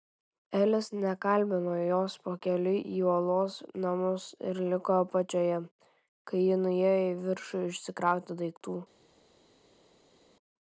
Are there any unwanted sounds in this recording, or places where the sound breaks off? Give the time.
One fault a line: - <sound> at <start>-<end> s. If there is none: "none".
none